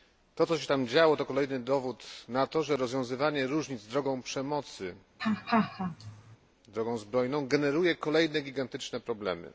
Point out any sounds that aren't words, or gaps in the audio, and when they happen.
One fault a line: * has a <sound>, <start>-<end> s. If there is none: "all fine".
* has a laugh, 5.2-6.4 s